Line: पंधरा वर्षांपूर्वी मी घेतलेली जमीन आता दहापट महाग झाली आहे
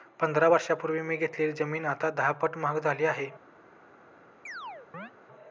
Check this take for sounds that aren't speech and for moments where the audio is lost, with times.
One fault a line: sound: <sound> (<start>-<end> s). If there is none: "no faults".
sound: chirp (4.5-5.1 s)